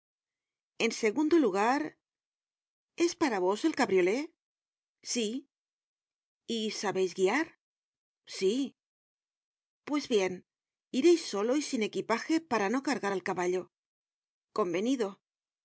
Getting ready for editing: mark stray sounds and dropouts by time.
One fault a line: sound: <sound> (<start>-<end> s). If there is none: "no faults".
no faults